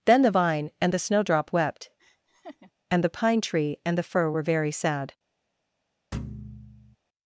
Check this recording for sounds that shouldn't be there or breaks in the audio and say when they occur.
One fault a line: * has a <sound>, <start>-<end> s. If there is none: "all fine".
* has a laugh, 2.0-2.7 s
* has a thud, 6.1-7.0 s